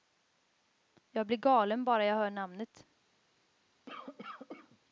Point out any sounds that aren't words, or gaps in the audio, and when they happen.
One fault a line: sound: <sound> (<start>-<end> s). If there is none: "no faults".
sound: cough (3.9-4.8 s)